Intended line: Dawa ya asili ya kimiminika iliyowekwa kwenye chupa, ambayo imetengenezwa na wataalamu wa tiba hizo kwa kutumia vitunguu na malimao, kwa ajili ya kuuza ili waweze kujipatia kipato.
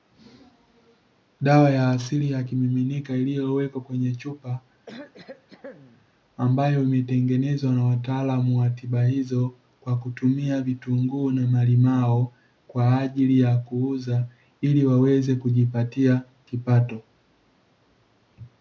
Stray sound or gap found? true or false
true